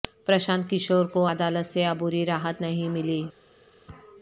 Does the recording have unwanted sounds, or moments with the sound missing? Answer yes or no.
no